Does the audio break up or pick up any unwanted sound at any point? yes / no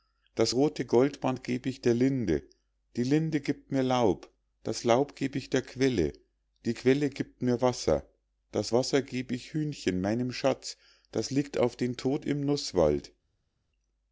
no